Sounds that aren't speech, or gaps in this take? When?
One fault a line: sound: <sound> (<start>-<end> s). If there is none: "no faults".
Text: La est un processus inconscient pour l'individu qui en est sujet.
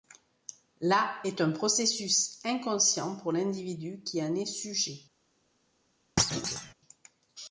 sound: thud (6.2-6.7 s)